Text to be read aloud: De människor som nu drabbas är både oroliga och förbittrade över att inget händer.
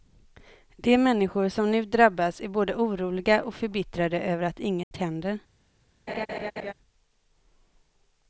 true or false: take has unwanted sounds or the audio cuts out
true